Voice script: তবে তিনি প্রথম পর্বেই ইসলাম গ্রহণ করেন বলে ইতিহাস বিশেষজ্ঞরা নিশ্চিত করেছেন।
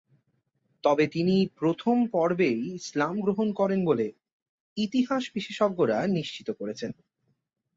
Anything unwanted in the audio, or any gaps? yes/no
no